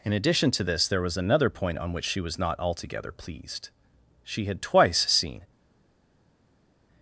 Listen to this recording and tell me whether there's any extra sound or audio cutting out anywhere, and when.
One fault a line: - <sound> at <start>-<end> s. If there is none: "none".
none